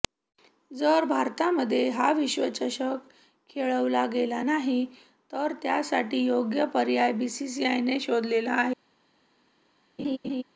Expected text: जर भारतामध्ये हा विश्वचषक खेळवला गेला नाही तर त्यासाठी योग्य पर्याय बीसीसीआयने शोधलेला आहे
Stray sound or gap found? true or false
true